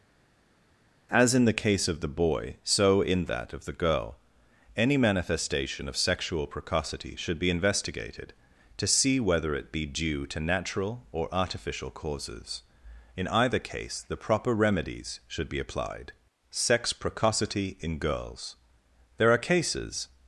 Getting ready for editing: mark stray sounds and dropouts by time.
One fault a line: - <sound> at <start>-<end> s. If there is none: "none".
none